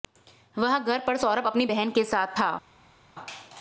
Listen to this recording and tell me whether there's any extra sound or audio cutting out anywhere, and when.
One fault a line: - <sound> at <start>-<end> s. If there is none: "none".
none